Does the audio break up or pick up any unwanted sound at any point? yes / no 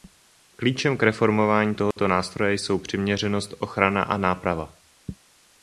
yes